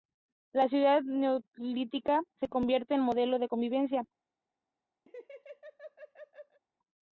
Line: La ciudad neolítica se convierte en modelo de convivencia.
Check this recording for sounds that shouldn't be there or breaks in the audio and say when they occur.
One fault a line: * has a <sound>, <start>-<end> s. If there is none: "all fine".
* has a laugh, 5.1-6.6 s